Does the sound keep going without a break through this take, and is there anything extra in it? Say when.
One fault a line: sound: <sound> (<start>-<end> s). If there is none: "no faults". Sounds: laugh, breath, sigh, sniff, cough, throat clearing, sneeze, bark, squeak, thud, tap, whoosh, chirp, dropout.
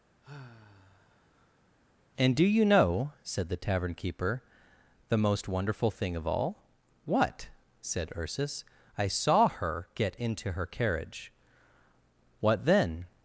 sound: sigh (0.2-1.7 s)